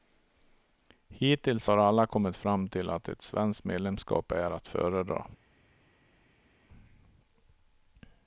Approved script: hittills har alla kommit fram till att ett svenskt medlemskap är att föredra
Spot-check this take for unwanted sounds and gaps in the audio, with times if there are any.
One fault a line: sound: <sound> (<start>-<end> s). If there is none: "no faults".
no faults